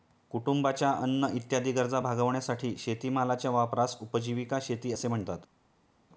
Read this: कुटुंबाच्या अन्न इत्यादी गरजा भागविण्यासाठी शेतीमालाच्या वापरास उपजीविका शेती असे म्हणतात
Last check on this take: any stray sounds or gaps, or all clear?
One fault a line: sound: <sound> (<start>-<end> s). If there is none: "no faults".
no faults